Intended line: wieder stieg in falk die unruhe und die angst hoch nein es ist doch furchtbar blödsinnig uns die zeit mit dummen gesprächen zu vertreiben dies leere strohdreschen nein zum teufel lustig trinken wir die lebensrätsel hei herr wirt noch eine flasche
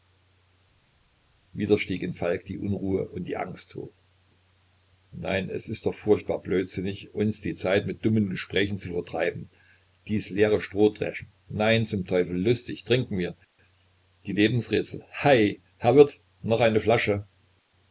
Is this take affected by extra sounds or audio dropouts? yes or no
no